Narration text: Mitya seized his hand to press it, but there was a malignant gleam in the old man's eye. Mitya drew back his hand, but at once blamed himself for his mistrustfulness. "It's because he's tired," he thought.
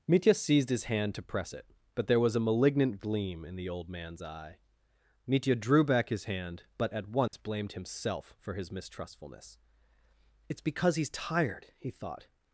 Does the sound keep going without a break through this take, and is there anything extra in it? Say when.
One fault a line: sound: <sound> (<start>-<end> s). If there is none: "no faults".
sound: dropout (7.3-7.3 s)